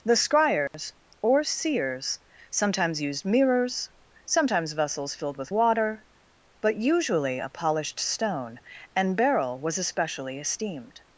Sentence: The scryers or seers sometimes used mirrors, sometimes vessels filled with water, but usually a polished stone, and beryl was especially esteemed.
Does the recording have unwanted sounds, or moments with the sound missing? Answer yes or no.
yes